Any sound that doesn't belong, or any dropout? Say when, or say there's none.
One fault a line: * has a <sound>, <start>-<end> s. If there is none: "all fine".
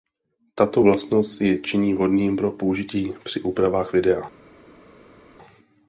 all fine